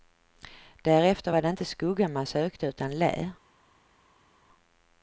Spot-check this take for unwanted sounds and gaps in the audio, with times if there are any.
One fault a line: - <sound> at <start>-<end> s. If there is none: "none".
none